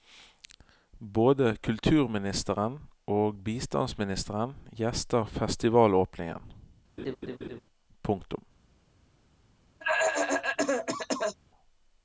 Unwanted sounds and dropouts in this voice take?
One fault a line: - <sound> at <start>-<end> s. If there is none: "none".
- laugh at 7.0-7.6 s
- cough at 9.8-11.4 s